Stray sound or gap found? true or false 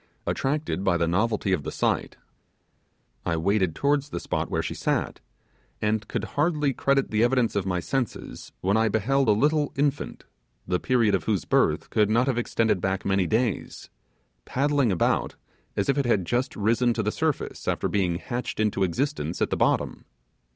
false